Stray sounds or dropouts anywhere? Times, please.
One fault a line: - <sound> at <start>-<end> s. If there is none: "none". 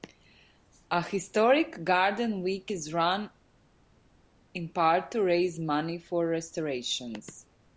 none